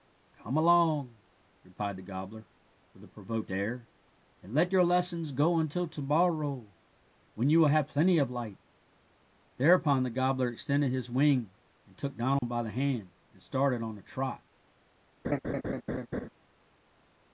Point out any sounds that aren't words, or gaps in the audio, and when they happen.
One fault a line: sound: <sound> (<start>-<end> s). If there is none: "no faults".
sound: dropout (12.4-12.4 s)
sound: laugh (15.2-16.3 s)